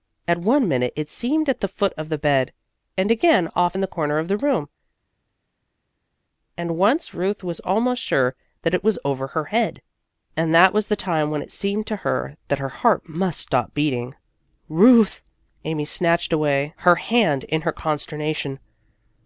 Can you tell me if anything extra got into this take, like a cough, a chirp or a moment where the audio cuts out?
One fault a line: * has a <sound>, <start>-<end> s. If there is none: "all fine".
all fine